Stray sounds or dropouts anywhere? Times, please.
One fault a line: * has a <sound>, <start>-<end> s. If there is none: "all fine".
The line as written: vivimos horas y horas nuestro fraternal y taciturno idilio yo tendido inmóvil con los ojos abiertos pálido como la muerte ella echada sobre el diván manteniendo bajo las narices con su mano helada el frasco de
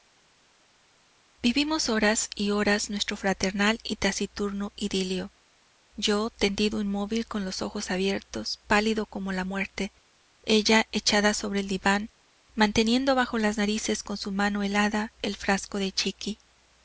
all fine